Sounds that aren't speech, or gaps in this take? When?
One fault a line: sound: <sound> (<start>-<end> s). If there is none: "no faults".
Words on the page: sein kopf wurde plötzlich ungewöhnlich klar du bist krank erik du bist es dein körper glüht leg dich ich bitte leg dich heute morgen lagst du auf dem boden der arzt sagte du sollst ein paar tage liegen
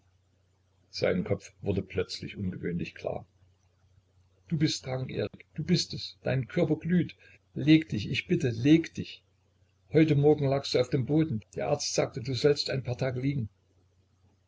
sound: dropout (5.3-5.3 s)